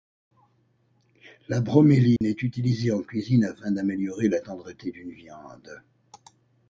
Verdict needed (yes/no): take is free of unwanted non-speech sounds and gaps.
no